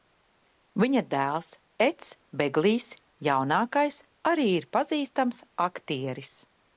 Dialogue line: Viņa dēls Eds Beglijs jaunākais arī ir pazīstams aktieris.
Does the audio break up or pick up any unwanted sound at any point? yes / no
no